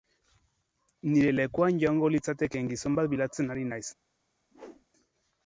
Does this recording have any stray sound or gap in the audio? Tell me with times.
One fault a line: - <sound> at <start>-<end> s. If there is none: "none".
- whoosh at 4.5-4.9 s